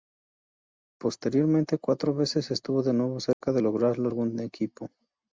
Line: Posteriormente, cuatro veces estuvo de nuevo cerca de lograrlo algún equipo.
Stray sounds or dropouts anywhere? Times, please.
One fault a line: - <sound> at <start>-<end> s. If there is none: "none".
- dropout at 3.3-3.4 s